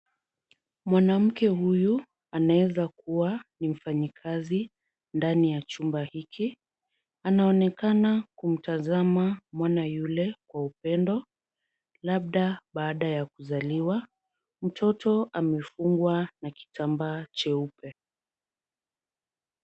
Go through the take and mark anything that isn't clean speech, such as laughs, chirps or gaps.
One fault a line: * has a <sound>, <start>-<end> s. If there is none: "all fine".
all fine